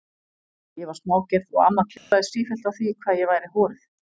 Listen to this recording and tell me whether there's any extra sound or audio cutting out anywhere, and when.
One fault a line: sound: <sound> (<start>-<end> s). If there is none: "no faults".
sound: dropout (2.0-2.1 s)